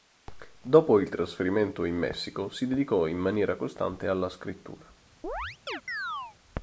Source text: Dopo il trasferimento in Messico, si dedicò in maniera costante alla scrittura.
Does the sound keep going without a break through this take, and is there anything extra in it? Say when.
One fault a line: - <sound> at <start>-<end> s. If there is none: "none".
- chirp at 5.2-6.4 s